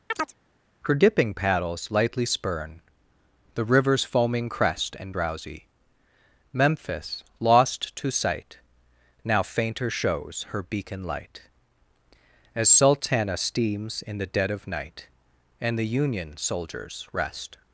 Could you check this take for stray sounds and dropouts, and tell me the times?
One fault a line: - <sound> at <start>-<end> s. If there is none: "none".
- chirp at 0.1-0.4 s